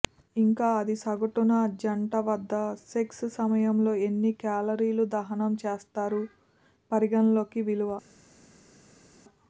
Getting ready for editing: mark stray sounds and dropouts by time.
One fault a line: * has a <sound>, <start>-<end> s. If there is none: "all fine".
all fine